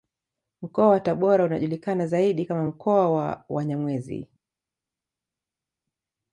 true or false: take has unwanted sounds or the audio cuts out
false